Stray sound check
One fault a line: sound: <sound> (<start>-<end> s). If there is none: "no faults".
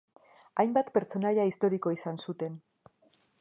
no faults